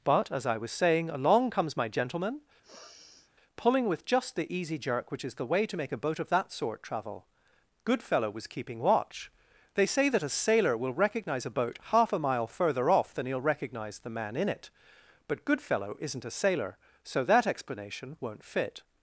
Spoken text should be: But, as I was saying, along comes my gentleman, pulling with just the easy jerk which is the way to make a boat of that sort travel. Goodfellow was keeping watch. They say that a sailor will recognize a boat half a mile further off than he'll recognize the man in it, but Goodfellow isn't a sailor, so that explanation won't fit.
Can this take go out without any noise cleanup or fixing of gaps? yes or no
no